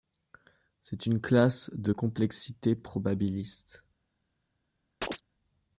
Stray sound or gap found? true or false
true